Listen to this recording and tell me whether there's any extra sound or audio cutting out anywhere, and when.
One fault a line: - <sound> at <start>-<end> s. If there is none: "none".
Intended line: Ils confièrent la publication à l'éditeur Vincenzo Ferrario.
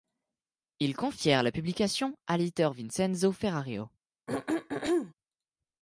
- throat clearing at 4.3-5.1 s